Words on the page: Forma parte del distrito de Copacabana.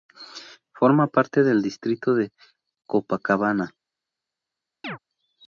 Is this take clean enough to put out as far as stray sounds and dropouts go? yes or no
no